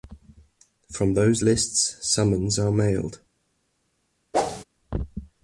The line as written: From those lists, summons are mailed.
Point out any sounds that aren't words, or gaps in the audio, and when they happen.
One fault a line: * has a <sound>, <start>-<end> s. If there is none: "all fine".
* has a whoosh, 4.3-4.6 s